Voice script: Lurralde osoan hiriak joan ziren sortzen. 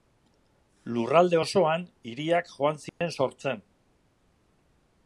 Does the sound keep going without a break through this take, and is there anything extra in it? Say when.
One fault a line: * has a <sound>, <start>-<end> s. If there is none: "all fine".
* has a dropout, 2.9-3.0 s